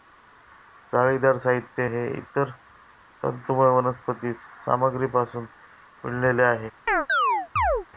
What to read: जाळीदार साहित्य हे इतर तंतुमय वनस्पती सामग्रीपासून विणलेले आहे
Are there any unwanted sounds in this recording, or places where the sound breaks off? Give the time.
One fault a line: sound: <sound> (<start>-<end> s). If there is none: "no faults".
sound: chirp (6.9-7.9 s)